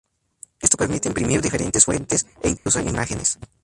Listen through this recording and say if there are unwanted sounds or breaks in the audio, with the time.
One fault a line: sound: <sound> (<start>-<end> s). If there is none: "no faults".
sound: dropout (2.6-2.7 s)